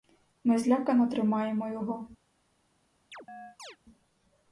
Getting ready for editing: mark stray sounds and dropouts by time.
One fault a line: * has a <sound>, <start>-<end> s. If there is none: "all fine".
* has a chirp, 3.1-3.8 s